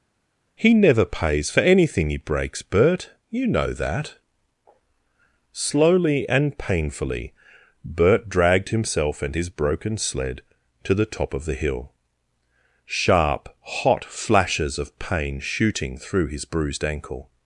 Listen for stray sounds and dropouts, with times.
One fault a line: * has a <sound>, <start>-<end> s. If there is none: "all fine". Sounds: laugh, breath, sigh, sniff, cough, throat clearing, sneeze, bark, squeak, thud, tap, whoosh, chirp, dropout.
all fine